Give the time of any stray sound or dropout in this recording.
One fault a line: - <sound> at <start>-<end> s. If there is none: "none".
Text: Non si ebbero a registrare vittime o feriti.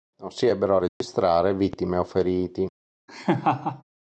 - dropout at 0.9-1.0 s
- laugh at 3.1-3.8 s